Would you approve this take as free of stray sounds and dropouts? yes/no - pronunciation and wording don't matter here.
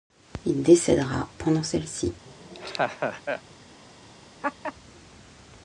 no